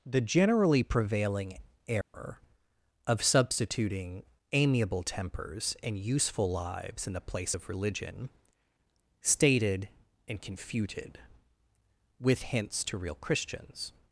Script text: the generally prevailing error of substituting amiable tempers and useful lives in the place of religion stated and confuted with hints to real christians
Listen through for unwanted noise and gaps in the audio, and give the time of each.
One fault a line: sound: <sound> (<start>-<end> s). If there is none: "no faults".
sound: dropout (2.0-2.1 s)